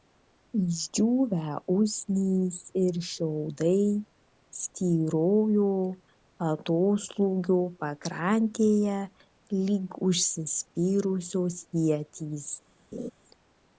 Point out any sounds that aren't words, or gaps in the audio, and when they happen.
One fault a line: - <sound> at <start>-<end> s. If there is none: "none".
- laugh at 12.9-13.1 s